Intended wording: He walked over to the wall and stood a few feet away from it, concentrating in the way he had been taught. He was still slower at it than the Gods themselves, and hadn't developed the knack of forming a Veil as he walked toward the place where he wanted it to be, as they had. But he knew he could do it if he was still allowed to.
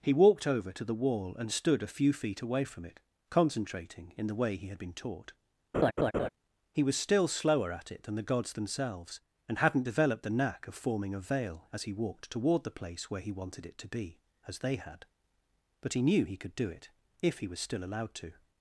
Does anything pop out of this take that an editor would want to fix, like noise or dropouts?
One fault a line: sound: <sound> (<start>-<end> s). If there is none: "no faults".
sound: laugh (5.7-6.3 s)